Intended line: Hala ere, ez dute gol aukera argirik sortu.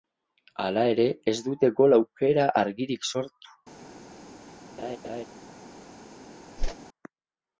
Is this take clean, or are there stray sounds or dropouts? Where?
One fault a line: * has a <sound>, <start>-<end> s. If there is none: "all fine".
* has a laugh, 4.8-5.2 s
* has a whoosh, 6.6-6.8 s